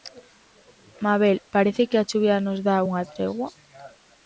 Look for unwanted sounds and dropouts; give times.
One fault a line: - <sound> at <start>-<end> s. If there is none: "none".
none